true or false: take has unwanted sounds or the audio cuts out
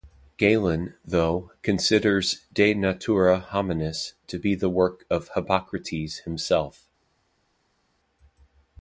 false